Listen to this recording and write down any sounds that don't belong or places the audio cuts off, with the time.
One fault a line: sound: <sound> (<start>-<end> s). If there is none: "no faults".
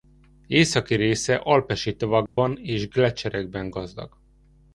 sound: dropout (2.3-2.4 s)